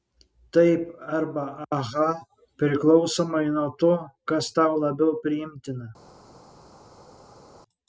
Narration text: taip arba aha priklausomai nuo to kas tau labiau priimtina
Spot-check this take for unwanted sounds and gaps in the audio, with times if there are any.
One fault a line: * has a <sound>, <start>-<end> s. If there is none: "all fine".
all fine